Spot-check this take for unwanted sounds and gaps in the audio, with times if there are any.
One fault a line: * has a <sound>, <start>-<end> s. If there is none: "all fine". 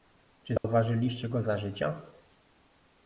* has a dropout, 0.6-0.6 s